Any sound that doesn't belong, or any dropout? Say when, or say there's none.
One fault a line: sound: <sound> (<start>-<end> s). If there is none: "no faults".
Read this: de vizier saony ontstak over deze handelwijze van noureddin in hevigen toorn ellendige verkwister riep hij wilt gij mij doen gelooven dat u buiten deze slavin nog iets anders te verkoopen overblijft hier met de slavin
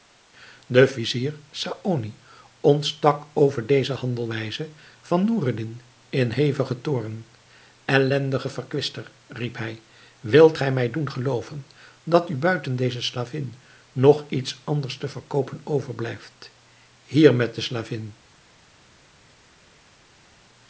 no faults